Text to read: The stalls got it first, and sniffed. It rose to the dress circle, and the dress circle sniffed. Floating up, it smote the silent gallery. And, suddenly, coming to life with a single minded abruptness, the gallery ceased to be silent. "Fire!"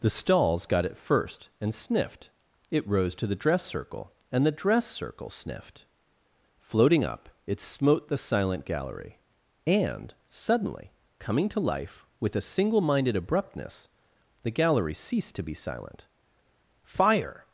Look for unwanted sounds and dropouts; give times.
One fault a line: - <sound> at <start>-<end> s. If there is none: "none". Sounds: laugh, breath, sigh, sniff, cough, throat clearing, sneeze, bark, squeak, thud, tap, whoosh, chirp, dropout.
none